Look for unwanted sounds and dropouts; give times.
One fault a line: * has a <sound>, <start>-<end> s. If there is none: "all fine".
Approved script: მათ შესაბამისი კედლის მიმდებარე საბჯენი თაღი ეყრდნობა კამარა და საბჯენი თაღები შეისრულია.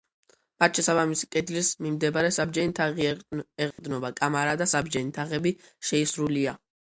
* has a dropout, 3.7-3.8 s